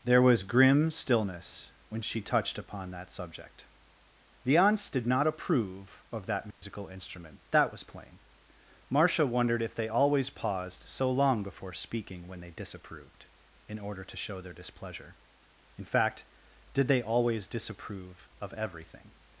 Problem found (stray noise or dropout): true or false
true